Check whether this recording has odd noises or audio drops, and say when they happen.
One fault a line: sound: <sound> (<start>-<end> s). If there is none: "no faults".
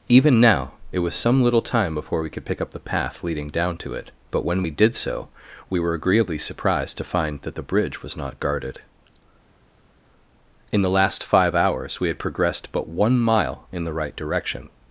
no faults